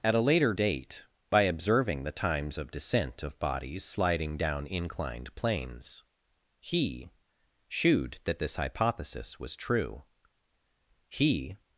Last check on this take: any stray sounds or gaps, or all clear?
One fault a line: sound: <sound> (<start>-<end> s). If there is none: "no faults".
no faults